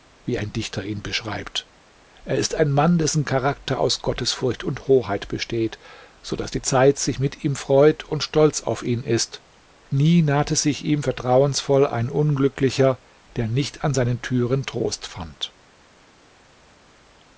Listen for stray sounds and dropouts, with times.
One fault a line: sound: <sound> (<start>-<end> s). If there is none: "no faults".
no faults